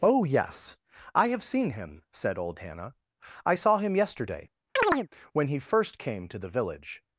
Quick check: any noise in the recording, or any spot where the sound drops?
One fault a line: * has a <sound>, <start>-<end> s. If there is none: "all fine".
* has a chirp, 4.8-5.1 s